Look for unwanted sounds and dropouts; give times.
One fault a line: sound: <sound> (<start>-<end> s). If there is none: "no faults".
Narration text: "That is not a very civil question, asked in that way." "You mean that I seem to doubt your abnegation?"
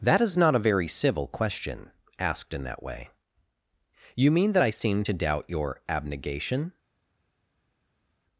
no faults